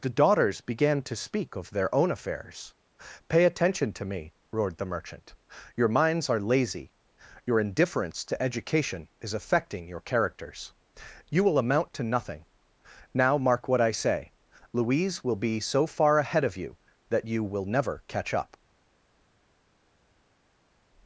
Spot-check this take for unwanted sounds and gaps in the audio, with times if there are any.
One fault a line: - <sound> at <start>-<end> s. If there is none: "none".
none